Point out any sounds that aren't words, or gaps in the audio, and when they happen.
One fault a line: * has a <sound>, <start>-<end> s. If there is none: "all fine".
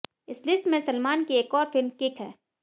all fine